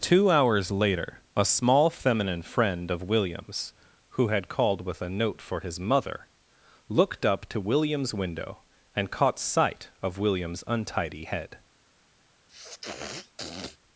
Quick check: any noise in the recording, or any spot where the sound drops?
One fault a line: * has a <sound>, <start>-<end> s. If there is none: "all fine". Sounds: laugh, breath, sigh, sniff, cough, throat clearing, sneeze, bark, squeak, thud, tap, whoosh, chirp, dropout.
* has a sniff, 12.5-13.8 s